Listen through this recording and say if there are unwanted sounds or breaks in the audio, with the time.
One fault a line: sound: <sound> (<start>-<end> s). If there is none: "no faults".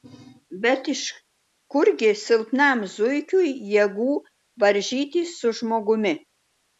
no faults